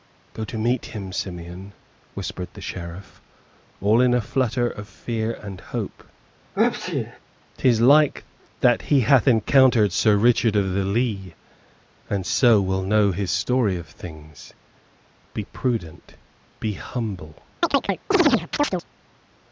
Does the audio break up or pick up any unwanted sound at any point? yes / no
yes